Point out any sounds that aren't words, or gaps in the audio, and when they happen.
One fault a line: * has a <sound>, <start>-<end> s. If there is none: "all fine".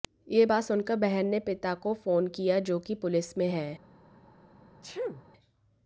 * has a sneeze, 4.8-5.2 s